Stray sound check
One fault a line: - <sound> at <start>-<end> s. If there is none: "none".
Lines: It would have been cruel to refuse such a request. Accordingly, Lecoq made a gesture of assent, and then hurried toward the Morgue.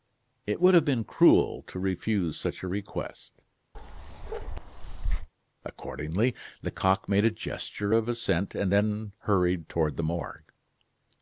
- bark at 3.7-5.3 s